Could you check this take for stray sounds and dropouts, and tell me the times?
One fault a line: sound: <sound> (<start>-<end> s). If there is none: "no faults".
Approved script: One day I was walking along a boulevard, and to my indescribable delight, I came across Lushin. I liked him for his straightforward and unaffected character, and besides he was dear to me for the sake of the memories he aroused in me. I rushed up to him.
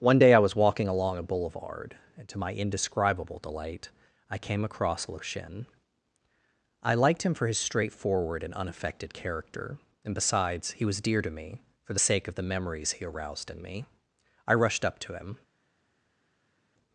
no faults